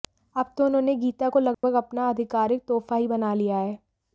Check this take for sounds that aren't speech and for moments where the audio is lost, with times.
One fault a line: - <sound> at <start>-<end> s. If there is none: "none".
- dropout at 1.5-1.6 s